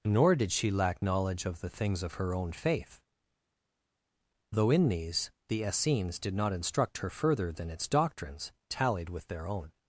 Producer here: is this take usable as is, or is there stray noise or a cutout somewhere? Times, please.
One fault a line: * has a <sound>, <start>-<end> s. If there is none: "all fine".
all fine